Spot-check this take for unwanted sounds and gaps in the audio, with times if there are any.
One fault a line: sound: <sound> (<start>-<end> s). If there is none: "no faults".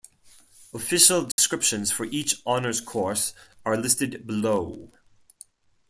sound: dropout (1.3-1.4 s)